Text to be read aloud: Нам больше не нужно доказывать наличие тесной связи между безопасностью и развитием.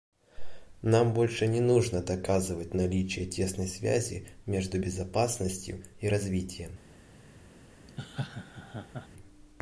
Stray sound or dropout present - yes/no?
yes